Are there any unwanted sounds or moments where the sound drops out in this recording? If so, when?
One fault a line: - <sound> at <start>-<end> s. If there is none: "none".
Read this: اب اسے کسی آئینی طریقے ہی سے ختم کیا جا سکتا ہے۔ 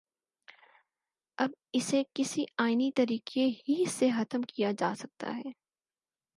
none